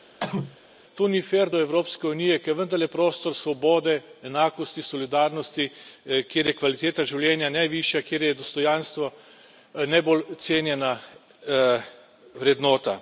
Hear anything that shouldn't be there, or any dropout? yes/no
yes